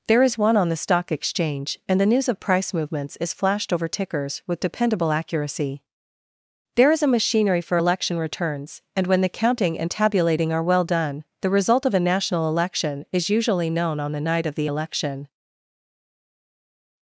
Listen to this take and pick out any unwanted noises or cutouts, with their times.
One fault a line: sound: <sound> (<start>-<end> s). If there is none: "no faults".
no faults